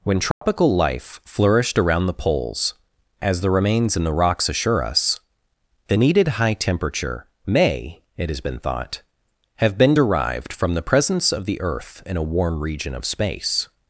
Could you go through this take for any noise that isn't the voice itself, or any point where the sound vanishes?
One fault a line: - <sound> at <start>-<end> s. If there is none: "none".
- dropout at 0.3-0.4 s